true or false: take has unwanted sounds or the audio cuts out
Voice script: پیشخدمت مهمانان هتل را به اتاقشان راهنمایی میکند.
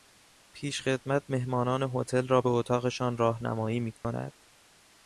true